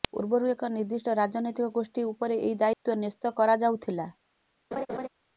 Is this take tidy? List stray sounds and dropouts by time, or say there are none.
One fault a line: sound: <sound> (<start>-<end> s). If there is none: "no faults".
sound: dropout (2.7-2.9 s)
sound: laugh (4.7-5.1 s)